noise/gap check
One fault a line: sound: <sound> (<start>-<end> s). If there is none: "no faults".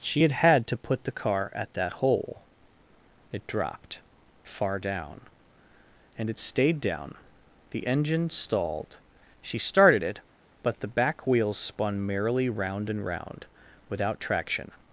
no faults